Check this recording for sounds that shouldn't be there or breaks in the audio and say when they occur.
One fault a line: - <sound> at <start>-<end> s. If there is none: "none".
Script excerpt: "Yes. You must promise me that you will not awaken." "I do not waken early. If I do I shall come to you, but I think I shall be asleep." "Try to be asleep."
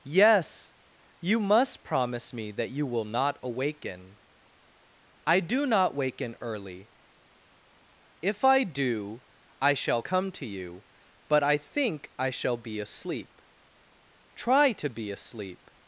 none